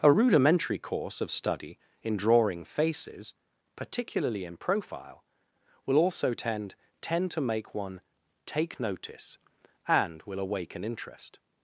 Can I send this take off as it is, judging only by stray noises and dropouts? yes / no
yes